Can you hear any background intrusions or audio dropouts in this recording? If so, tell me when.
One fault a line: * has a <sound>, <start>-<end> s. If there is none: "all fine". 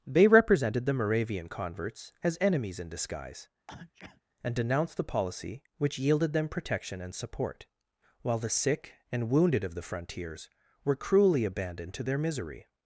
* has a sneeze, 3.7-4.2 s